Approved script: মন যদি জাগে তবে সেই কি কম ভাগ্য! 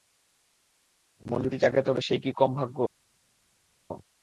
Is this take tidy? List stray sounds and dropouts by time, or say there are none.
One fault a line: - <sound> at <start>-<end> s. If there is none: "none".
none